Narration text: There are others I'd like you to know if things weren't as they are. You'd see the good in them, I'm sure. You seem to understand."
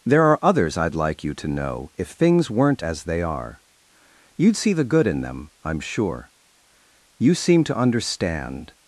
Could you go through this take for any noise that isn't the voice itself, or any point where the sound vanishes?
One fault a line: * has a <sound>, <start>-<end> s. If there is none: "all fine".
all fine